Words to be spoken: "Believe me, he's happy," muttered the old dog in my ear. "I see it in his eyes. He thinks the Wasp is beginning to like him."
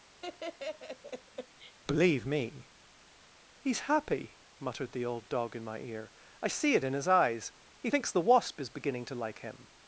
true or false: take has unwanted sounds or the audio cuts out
true